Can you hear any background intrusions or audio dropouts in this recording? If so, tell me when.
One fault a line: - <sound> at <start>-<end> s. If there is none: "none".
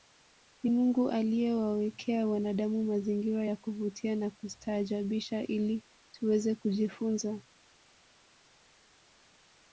none